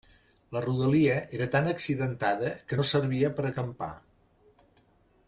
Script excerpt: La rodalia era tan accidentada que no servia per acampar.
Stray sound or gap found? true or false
false